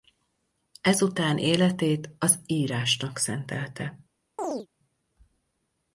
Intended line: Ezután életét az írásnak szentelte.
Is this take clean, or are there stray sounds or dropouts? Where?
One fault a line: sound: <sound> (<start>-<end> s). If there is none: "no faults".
sound: chirp (4.4-4.7 s)